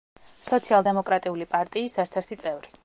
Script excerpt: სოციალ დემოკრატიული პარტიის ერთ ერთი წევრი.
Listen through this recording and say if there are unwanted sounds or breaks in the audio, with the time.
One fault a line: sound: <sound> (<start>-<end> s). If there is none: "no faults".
no faults